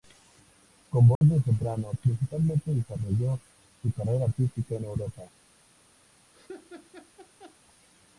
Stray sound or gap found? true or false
true